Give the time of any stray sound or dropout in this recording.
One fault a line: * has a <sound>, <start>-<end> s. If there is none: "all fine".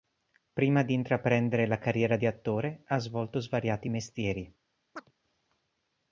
* has a chirp, 5.0-5.1 s